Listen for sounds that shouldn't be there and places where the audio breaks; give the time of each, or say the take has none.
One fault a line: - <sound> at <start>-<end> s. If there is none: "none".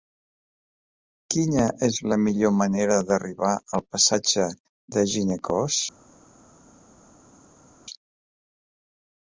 none